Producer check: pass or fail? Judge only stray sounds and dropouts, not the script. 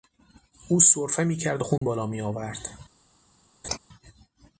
fail